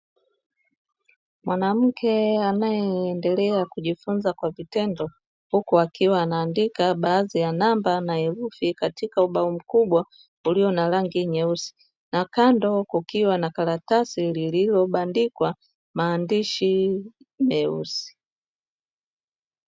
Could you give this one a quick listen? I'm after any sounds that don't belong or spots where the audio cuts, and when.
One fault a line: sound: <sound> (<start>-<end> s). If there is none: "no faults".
no faults